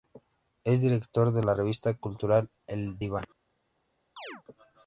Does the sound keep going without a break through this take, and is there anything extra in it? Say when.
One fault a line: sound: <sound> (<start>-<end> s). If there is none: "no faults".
sound: chirp (4.2-4.4 s)